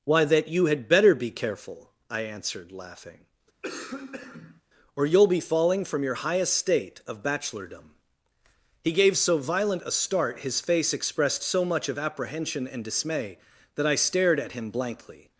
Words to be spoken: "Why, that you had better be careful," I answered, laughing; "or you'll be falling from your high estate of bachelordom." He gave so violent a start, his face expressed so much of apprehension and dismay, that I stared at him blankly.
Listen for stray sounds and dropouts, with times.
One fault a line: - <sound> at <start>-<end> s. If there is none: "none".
- cough at 3.6-4.6 s